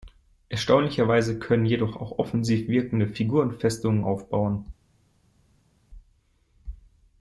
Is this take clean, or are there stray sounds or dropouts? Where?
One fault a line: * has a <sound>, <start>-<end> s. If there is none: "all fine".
all fine